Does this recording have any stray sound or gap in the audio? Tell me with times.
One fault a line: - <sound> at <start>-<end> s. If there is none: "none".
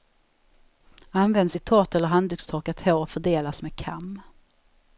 none